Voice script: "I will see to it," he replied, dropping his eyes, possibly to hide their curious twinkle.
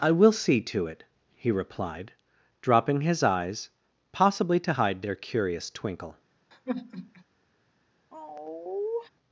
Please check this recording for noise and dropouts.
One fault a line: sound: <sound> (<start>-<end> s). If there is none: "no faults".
sound: sigh (6.5-7.2 s)
sound: sigh (8.1-9.1 s)